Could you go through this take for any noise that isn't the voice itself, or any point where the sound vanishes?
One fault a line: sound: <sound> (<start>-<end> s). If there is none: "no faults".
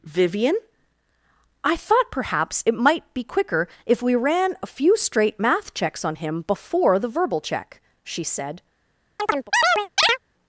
sound: chirp (9.2-10.2 s)